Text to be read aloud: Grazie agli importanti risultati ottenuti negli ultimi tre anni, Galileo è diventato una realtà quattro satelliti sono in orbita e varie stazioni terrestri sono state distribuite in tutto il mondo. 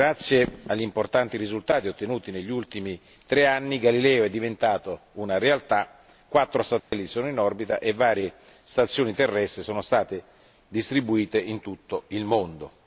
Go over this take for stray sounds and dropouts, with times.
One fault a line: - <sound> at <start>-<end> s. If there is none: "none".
- dropout at 6.8-6.9 s